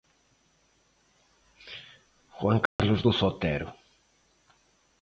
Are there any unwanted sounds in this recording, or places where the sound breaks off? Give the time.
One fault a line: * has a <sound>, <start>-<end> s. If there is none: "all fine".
* has a dropout, 2.7-2.8 s